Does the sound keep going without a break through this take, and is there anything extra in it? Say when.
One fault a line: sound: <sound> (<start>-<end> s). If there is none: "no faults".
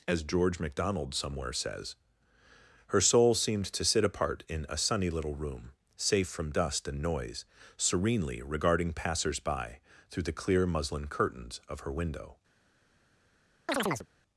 sound: chirp (13.7-14.1 s)